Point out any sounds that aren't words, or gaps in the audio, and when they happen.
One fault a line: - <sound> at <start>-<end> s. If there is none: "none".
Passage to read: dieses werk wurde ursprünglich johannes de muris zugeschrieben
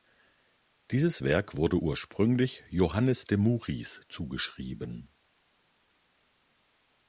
none